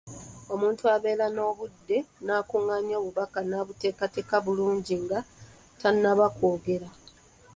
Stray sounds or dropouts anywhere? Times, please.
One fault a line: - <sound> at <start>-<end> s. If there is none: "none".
none